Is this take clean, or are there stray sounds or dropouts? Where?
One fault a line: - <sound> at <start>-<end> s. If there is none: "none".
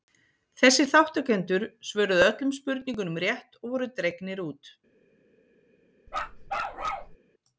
- bark at 6.1-7.2 s